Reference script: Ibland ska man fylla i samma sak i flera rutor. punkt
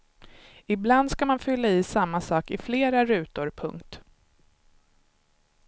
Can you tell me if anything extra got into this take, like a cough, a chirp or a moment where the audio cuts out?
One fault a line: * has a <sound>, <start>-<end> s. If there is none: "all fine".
all fine